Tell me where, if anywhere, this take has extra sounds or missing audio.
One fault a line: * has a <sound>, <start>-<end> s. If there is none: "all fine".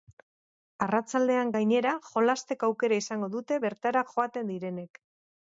all fine